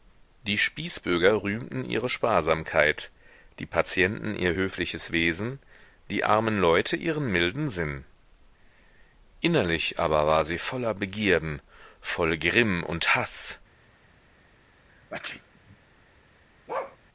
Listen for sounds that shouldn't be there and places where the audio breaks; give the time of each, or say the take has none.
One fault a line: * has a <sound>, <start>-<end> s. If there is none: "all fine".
* has a sneeze, 14.9-15.8 s
* has a bark, 16.7-17.0 s